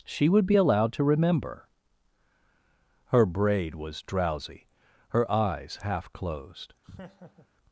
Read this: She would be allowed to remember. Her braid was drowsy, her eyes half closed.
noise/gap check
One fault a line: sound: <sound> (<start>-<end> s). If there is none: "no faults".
sound: laugh (6.8-7.5 s)